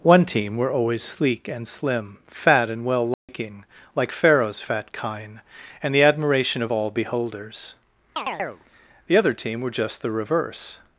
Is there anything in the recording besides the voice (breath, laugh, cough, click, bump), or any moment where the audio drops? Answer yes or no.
yes